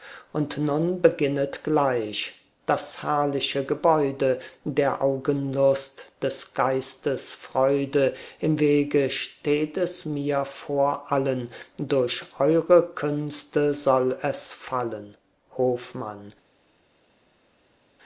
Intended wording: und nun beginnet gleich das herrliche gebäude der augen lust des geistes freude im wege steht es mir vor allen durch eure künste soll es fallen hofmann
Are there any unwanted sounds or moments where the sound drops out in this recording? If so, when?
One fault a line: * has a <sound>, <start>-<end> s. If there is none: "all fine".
all fine